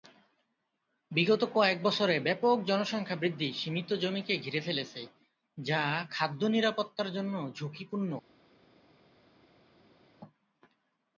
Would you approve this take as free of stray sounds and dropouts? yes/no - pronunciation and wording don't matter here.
yes